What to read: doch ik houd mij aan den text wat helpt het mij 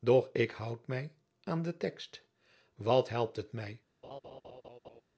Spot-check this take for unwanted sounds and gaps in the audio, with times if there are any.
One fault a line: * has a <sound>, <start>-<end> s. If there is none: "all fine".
* has a laugh, 4.0-5.0 s